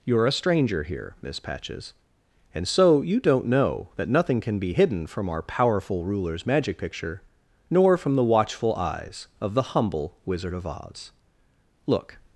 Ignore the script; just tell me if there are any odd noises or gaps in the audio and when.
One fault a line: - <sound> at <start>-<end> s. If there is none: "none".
none